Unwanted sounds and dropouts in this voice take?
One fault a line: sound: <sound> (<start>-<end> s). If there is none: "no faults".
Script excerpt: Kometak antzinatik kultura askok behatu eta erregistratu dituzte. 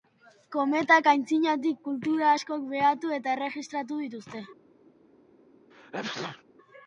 sound: sneeze (5.7-6.4 s)